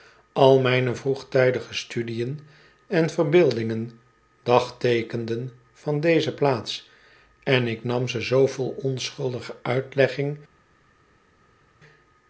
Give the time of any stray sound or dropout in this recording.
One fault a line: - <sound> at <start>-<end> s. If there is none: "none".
none